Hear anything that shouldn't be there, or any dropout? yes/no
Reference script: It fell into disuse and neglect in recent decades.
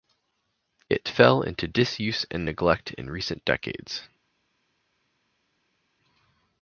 no